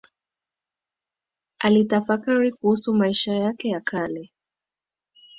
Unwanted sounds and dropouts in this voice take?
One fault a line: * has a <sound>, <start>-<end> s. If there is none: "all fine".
all fine